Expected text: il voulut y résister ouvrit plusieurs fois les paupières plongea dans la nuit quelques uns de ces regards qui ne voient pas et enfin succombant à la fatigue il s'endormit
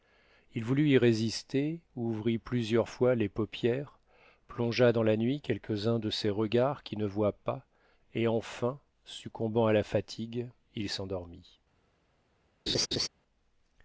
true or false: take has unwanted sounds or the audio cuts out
true